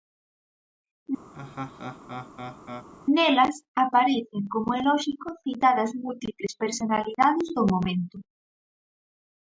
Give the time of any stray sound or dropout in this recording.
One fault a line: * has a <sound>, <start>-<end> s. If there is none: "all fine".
* has a laugh, 1.3-2.9 s